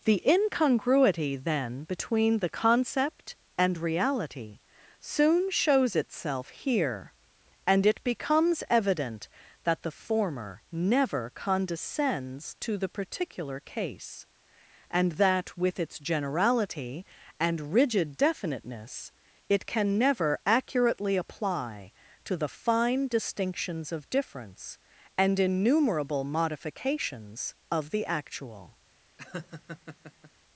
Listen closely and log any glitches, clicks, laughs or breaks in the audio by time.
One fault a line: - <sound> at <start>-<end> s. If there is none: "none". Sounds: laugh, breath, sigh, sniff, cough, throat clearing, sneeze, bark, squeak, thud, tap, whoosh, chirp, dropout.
- laugh at 29.2-30.3 s